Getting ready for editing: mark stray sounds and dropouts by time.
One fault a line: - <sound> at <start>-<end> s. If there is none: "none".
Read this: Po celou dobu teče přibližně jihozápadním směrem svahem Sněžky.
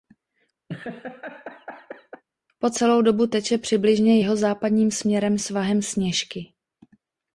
- laugh at 0.7-2.2 s